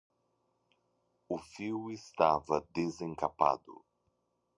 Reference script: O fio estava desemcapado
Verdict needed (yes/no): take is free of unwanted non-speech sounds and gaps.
yes